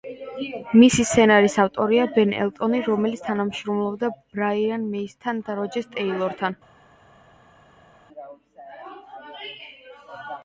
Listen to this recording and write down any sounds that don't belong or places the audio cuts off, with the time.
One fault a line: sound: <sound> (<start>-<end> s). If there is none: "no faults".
no faults